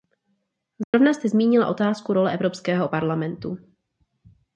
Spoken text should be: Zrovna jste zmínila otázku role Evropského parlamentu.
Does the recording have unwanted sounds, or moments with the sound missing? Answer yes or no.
yes